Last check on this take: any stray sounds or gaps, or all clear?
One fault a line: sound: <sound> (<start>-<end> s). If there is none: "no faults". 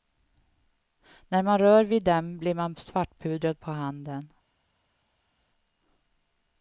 no faults